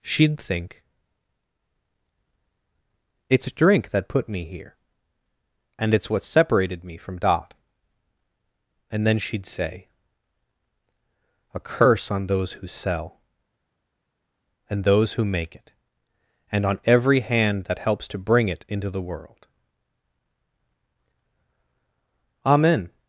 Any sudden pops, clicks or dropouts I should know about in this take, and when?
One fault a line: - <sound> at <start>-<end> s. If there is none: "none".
none